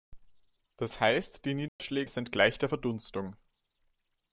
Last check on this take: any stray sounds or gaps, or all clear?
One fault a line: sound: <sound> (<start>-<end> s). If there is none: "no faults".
sound: dropout (1.7-1.8 s)